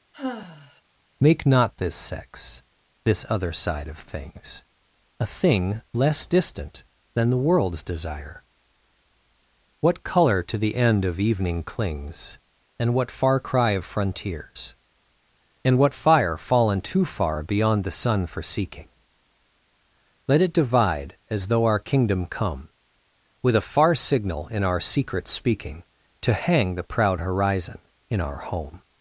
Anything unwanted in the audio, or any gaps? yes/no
yes